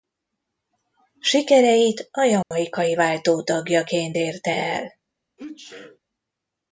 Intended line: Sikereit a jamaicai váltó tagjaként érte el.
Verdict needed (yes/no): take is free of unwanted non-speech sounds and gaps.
no